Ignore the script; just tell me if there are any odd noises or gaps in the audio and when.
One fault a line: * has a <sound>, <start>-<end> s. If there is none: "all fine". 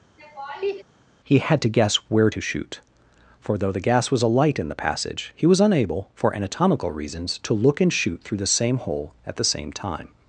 * has a laugh, 0.2-0.8 s